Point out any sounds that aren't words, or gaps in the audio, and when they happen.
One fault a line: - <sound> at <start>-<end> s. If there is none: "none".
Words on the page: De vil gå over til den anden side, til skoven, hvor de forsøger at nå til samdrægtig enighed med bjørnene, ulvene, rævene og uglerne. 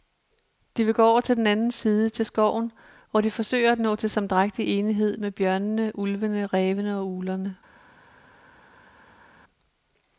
none